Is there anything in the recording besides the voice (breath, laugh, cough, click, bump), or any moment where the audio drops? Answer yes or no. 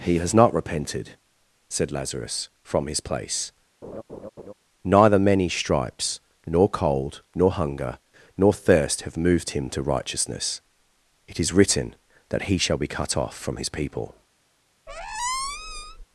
yes